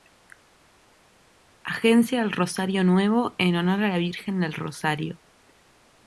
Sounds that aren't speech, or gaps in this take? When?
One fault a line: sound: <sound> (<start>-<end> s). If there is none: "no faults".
no faults